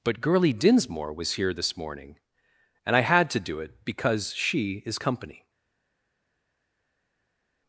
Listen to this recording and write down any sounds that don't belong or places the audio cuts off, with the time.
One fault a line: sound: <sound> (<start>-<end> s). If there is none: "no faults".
no faults